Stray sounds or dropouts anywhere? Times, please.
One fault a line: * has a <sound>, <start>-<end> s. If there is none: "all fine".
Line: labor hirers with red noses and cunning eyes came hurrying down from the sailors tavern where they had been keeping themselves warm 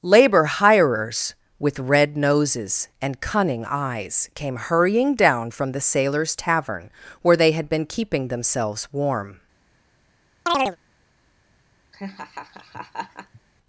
* has a chirp, 10.5-10.8 s
* has a laugh, 11.9-13.4 s